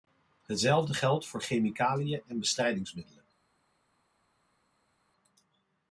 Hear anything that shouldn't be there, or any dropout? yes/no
no